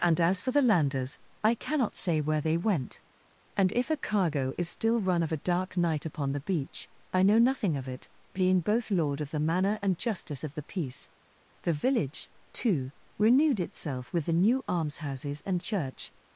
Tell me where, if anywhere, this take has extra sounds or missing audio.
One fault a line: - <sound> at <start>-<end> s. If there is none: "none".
none